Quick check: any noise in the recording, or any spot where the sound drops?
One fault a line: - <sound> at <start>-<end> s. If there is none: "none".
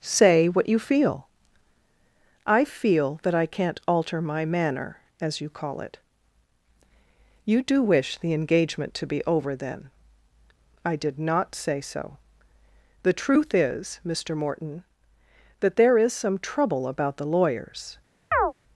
- chirp at 18.3-18.5 s